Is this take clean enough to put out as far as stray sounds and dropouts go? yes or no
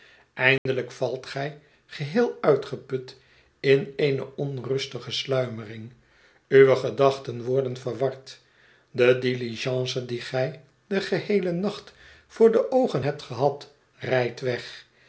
no